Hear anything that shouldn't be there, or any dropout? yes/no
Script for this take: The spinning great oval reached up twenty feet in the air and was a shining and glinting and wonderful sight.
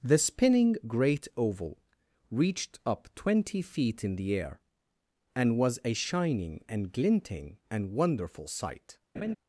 yes